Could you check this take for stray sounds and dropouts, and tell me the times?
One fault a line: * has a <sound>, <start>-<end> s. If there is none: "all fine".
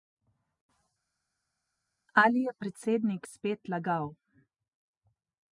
all fine